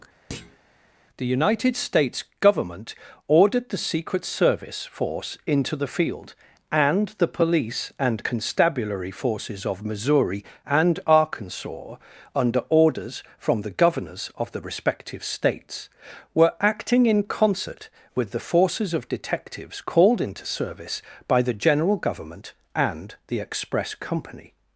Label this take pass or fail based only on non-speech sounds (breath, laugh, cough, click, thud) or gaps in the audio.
fail